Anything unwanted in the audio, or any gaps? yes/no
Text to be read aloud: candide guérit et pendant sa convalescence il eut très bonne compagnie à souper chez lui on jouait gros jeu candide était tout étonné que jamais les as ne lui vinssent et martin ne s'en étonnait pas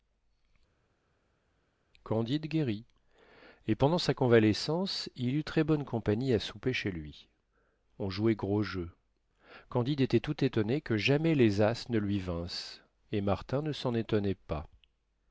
no